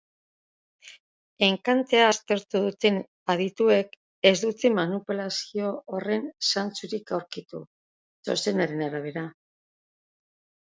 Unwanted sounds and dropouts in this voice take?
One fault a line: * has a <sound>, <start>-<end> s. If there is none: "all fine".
all fine